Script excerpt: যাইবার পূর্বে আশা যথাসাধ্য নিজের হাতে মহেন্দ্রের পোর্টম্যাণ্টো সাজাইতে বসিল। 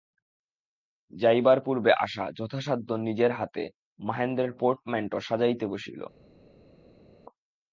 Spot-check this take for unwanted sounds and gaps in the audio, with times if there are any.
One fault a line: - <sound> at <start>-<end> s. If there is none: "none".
none